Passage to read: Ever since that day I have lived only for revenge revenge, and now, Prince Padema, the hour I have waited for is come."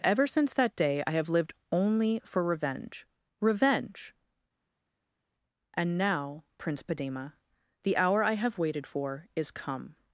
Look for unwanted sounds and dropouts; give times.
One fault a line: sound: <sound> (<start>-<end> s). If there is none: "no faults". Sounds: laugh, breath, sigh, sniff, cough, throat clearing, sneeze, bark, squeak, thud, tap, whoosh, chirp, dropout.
no faults